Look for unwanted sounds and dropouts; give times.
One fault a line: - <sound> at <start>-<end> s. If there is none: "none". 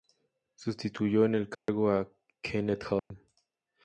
- dropout at 1.5-1.7 s
- dropout at 3.0-3.1 s